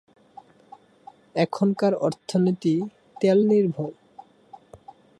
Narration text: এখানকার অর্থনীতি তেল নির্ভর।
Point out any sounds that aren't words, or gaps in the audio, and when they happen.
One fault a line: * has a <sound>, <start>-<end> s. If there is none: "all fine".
all fine